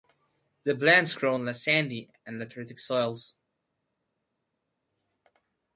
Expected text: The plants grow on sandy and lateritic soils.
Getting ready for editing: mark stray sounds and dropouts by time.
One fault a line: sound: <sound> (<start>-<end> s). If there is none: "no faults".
no faults